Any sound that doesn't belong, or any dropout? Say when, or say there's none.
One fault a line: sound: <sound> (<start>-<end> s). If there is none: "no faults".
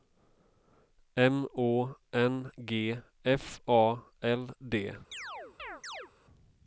sound: chirp (5.1-6.1 s)